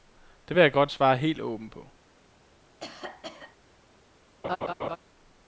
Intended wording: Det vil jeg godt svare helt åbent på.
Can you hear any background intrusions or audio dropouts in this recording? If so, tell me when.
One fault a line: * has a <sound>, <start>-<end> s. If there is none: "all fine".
* has a cough, 2.8-3.6 s
* has a laugh, 4.4-5.0 s